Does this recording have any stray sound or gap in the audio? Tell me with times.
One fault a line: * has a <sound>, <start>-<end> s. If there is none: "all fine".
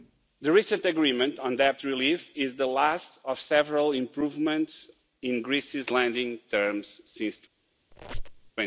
* has a squeak, 7.9-8.5 s